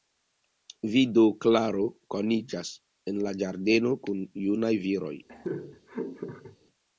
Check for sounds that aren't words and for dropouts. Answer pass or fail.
fail